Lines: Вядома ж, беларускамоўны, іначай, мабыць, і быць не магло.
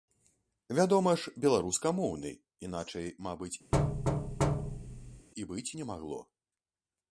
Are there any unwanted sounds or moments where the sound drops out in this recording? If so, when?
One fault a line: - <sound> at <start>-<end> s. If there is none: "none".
- thud at 3.7-5.3 s